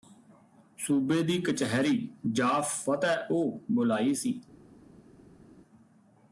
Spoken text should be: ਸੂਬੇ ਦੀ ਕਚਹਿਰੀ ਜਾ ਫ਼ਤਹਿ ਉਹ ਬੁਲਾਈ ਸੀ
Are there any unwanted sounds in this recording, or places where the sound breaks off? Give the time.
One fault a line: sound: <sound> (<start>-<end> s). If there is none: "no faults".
no faults